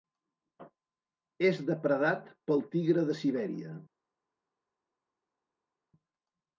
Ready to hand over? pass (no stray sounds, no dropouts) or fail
pass